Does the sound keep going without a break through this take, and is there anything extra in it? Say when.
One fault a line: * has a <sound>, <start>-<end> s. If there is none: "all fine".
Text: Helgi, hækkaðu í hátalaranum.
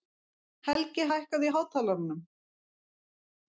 all fine